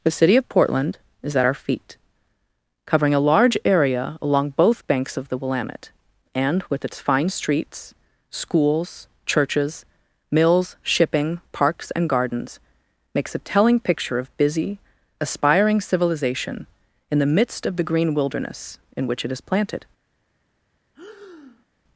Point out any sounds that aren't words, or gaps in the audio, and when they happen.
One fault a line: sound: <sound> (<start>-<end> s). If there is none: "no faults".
sound: breath (20.9-21.7 s)